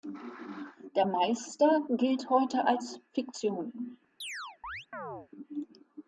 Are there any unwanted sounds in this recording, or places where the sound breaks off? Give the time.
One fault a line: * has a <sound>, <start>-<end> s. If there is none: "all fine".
* has a chirp, 4.2-5.3 s